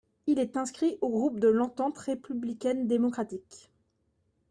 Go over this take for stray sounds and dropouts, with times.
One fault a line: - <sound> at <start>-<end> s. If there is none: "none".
none